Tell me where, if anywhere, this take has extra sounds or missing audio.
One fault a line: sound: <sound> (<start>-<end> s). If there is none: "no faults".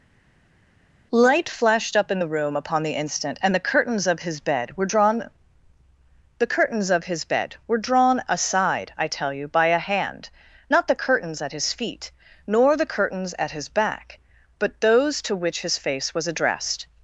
no faults